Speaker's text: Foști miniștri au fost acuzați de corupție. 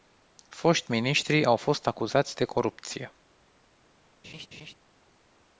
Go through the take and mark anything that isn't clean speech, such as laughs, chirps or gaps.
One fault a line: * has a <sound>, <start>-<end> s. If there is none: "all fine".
* has a laugh, 4.2-4.7 s